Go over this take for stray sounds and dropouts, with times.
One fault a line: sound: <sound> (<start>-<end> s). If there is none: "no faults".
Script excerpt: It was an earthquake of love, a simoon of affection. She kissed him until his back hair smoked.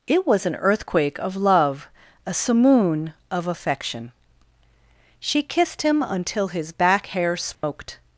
sound: dropout (7.5-7.6 s)